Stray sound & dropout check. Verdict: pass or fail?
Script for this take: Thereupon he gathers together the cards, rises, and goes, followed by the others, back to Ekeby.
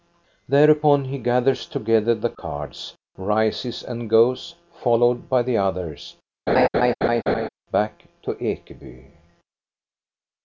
fail